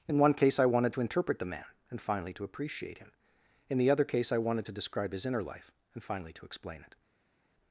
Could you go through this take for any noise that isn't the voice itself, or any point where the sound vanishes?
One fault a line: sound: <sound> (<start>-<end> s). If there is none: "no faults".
no faults